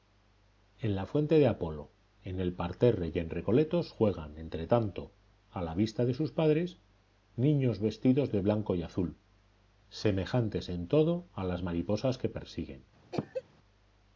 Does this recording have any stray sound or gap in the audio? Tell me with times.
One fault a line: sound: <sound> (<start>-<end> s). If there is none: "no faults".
sound: cough (13.1-13.4 s)